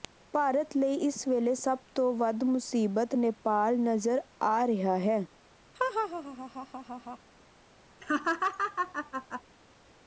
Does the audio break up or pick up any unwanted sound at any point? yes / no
yes